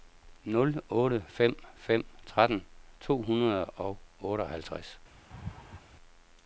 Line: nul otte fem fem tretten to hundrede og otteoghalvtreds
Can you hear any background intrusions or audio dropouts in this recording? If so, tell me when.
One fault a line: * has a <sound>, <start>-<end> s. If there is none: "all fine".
* has a laugh, 5.3-5.8 s